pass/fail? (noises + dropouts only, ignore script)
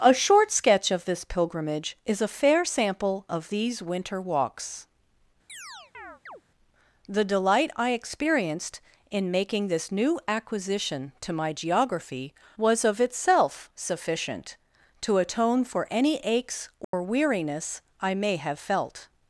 fail